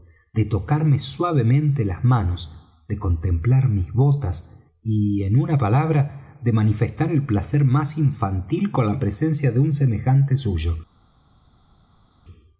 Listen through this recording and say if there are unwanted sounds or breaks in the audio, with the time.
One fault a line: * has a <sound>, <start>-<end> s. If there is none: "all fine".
all fine